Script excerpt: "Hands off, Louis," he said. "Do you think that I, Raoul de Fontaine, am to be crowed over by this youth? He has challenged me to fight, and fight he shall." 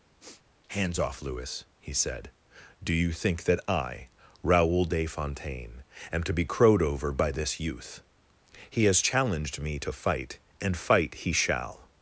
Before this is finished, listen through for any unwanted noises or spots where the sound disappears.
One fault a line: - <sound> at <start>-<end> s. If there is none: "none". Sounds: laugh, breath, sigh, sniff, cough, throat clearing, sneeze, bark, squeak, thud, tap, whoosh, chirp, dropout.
- sniff at 0.2-0.4 s